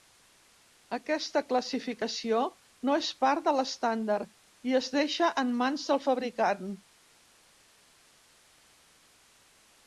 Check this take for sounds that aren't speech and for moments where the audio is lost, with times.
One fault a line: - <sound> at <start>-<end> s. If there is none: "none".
none